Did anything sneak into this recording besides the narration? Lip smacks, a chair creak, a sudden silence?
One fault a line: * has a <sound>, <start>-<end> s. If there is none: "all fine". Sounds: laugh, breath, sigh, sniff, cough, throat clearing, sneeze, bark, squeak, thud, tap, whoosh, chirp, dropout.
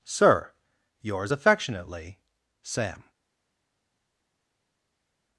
all fine